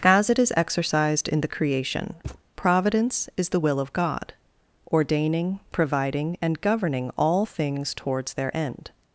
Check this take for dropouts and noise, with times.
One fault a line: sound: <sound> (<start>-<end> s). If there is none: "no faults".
sound: thud (2.2-2.4 s)